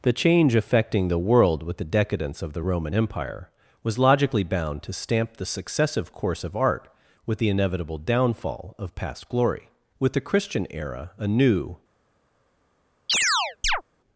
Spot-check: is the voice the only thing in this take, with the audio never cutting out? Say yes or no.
no